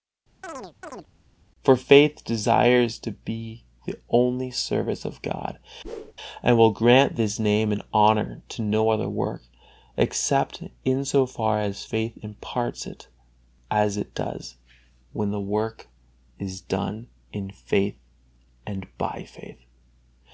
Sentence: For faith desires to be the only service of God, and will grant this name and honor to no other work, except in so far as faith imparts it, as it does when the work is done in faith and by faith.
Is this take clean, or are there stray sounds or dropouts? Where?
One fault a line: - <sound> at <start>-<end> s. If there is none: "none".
- chirp at 0.4-1.1 s
- whoosh at 5.8-6.1 s